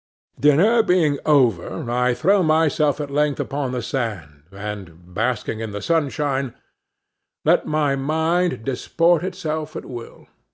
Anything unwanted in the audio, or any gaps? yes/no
no